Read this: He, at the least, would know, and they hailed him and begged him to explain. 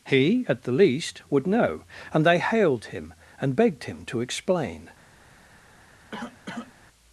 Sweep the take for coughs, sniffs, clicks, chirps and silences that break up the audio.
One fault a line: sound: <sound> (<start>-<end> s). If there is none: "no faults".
sound: cough (6.1-6.7 s)